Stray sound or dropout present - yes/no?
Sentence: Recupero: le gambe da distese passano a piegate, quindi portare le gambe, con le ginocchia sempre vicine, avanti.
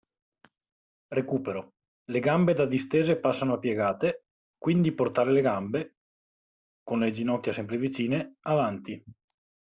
no